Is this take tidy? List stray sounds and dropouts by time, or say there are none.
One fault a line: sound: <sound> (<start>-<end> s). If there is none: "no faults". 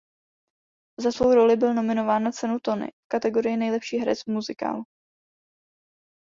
no faults